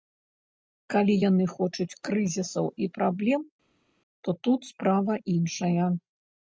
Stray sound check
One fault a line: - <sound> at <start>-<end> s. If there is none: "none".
none